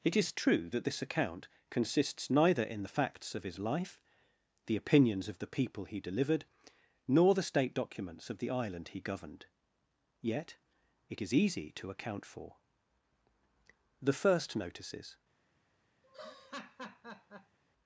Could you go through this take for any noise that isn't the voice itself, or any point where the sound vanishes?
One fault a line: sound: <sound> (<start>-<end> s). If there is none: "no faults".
sound: laugh (16.0-17.6 s)